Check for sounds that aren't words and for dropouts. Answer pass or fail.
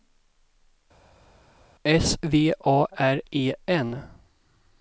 pass